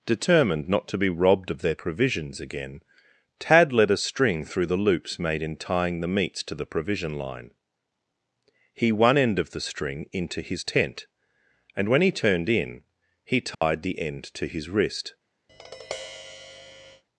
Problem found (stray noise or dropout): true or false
true